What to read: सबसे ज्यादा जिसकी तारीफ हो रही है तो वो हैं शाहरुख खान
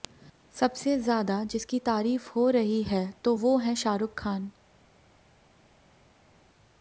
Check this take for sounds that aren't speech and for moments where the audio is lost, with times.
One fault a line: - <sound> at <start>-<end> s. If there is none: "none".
none